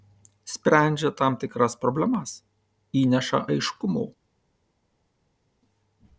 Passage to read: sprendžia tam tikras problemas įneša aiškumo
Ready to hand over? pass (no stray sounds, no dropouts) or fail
pass